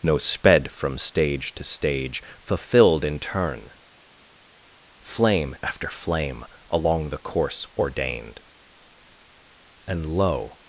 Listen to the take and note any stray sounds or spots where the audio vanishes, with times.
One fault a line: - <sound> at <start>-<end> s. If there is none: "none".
none